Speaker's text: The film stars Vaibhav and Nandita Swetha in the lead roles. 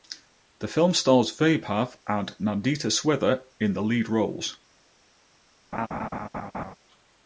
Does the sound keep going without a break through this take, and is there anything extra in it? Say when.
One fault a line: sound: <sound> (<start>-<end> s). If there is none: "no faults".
sound: laugh (5.7-6.7 s)